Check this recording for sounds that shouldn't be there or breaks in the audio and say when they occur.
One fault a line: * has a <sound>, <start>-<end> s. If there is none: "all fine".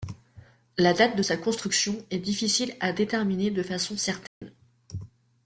* has a dropout, 4.3-4.4 s